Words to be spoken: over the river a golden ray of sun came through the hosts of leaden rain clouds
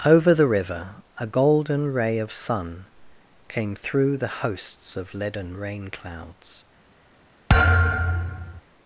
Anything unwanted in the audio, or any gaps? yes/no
yes